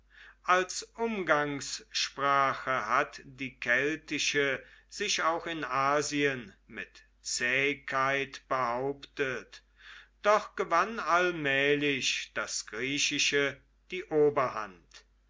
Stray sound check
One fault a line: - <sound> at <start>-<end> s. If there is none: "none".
none